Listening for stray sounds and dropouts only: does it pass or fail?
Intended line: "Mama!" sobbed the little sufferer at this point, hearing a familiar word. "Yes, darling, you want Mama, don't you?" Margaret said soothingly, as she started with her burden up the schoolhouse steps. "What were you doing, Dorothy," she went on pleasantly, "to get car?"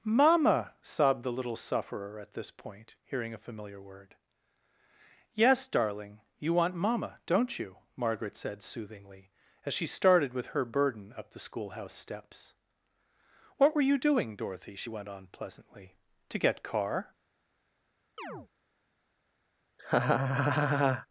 fail